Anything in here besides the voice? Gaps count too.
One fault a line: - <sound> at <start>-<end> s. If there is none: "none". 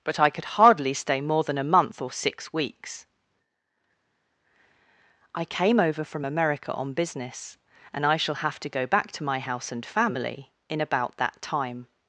none